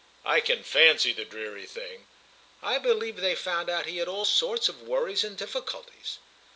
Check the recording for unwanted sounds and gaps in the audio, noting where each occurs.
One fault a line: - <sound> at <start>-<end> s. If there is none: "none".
none